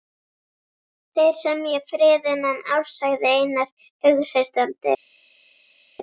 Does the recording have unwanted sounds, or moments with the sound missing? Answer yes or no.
no